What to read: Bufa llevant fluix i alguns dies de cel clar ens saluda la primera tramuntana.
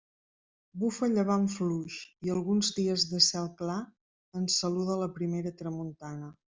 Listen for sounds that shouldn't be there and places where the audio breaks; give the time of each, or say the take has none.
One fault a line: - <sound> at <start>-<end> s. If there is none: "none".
none